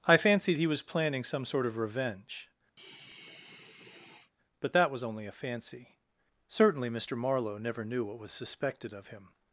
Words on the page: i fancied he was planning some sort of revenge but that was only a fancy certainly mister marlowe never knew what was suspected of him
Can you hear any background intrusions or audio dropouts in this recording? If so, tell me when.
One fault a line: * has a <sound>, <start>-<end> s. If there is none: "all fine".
* has a sigh, 2.8-4.3 s